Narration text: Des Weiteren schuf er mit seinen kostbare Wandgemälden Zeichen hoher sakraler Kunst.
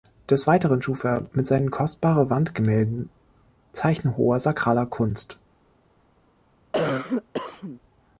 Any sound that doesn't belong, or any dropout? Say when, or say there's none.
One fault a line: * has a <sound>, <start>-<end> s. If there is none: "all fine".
* has a cough, 6.7-7.8 s